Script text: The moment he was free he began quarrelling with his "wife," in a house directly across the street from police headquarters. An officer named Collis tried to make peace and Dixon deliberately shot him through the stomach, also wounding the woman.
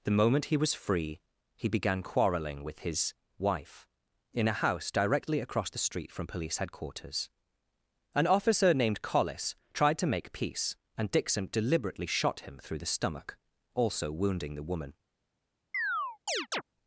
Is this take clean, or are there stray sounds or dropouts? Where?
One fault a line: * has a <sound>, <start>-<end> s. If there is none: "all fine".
* has a chirp, 15.7-16.6 s